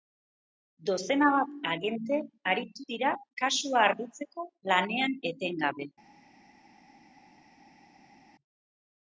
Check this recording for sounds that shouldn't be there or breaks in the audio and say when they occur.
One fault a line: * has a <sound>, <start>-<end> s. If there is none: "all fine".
all fine